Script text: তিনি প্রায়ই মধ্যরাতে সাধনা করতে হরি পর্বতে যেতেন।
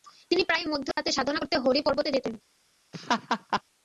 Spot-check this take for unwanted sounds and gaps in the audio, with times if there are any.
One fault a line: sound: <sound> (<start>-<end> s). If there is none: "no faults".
sound: dropout (0.9-1.0 s)
sound: laugh (2.9-3.6 s)